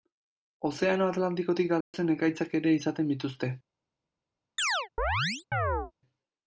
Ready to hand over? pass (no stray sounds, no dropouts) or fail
fail